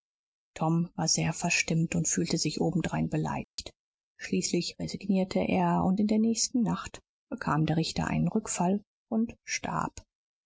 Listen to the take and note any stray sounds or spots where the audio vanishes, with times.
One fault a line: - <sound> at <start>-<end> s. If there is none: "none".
- dropout at 3.4-3.6 s